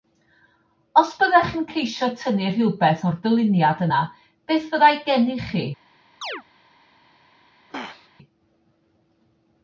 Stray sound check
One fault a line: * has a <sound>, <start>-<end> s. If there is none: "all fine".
* has a chirp, 6.2-6.4 s
* has a throat clearing, 7.7-8.1 s